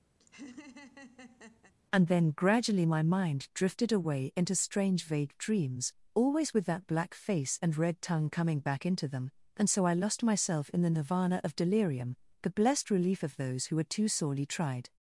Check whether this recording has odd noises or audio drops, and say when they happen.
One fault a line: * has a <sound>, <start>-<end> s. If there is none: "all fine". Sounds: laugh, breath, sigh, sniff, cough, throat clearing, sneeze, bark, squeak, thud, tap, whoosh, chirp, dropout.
* has a laugh, 0.2-1.7 s